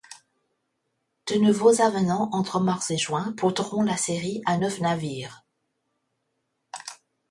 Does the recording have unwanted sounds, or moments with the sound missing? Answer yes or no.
no